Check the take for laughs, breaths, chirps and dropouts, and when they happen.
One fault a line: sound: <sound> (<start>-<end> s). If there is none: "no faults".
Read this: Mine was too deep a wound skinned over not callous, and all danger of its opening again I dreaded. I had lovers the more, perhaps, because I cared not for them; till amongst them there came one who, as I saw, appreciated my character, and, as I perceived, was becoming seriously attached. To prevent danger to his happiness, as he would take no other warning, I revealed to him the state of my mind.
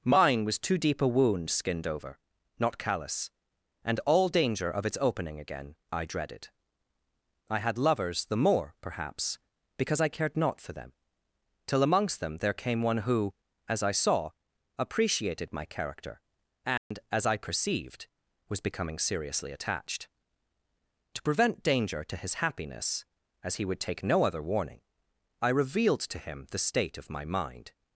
sound: dropout (16.8-16.9 s)